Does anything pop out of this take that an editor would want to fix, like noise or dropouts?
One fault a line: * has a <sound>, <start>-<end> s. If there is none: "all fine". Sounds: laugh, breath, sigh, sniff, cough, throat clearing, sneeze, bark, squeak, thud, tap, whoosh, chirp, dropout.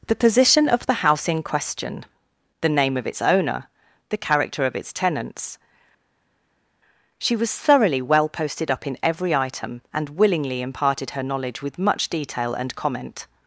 all fine